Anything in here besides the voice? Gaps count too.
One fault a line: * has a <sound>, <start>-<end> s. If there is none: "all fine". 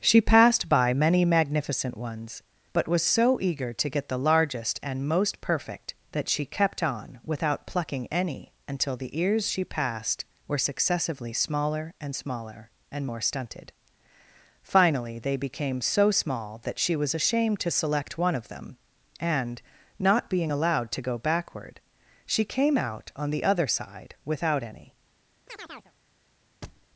* has a chirp, 25.5-25.9 s
* has a thud, 26.6-26.9 s